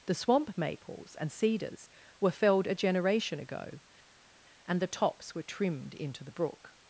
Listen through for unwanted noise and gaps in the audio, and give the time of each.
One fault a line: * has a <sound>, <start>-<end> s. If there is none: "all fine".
all fine